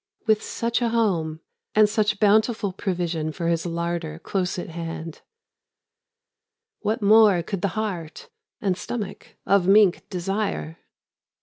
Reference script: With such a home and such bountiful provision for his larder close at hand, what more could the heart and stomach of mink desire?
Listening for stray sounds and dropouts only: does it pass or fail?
pass